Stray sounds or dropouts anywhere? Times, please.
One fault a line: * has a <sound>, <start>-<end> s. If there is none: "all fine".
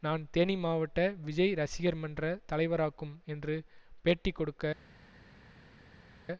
all fine